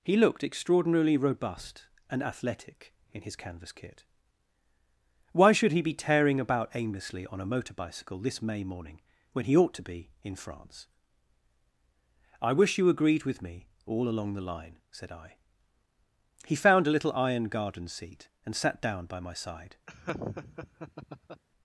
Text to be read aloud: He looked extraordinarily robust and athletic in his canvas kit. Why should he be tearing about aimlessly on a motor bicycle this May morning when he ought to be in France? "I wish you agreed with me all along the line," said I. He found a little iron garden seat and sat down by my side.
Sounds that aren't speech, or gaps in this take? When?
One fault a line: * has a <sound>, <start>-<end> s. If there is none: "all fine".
* has a laugh, 19.9-21.4 s